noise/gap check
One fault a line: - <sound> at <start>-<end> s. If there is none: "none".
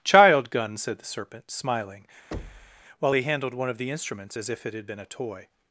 - thud at 2.3-2.8 s